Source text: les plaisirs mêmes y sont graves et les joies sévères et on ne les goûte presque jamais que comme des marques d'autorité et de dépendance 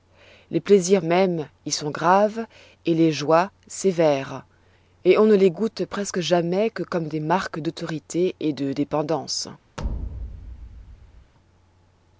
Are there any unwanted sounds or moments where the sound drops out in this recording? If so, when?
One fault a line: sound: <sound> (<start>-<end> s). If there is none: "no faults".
sound: thud (9.8-11.3 s)